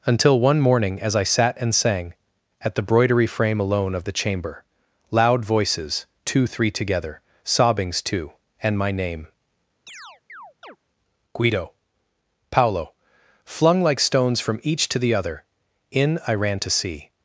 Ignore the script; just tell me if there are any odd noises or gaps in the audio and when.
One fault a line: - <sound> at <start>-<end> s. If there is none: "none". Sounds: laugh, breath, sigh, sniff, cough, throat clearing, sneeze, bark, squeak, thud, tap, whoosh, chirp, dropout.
- chirp at 9.9-10.8 s